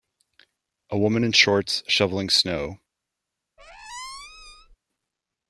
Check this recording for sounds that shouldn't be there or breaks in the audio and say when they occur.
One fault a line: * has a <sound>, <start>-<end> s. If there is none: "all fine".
* has a squeak, 3.6-4.8 s